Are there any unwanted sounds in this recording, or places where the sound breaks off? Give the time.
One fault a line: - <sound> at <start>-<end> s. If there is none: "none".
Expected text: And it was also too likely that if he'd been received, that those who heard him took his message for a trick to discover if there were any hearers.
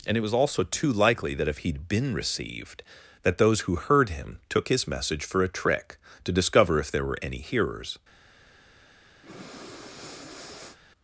- breath at 9.2-10.8 s